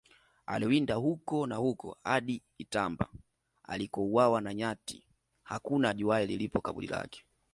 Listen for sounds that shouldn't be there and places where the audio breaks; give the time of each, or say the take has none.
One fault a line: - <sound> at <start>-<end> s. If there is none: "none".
none